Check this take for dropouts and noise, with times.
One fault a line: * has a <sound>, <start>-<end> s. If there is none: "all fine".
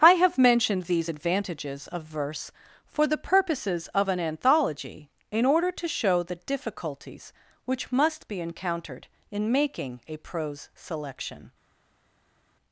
all fine